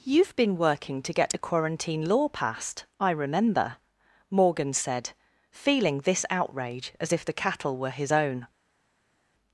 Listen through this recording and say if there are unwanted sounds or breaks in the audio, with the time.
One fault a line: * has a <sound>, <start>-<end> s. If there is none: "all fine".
all fine